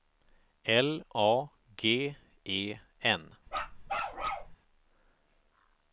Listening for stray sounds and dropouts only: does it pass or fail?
fail